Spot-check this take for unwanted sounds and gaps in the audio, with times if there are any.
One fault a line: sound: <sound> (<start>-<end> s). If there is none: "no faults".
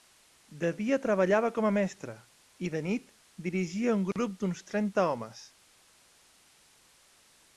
no faults